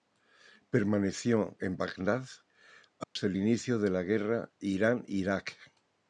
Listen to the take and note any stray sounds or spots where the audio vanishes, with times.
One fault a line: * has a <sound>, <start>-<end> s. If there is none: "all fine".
* has a dropout, 3.0-3.2 s